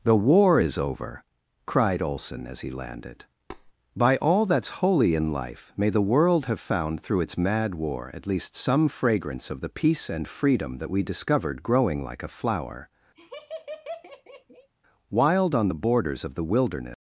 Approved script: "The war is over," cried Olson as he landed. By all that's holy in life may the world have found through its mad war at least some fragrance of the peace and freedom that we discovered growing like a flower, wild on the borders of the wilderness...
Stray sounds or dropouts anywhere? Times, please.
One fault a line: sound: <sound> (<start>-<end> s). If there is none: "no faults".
sound: tap (3.5-3.7 s)
sound: laugh (13.1-14.7 s)